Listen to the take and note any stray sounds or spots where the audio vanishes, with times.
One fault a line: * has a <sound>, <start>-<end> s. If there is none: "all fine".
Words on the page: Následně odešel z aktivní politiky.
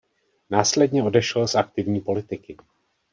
all fine